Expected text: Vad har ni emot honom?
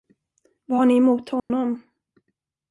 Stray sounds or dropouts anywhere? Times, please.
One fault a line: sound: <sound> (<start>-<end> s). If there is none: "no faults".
sound: dropout (1.4-1.5 s)